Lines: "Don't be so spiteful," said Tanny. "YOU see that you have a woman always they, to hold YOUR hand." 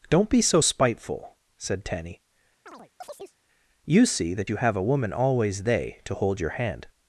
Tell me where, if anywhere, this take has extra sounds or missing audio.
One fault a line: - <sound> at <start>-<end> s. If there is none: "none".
- chirp at 2.7-3.4 s